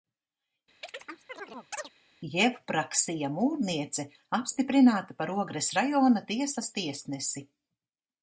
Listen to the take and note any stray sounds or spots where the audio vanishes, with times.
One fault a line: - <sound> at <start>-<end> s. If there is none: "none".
- chirp at 0.8-1.9 s